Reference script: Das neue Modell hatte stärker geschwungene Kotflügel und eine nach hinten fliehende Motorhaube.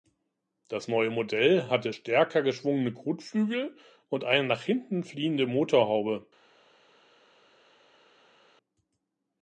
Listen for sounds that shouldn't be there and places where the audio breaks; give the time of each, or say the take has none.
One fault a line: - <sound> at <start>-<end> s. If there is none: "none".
none